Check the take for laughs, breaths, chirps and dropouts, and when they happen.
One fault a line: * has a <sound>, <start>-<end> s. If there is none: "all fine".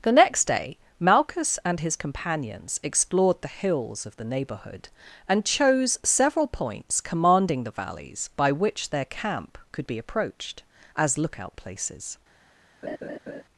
* has a laugh, 12.8-13.4 s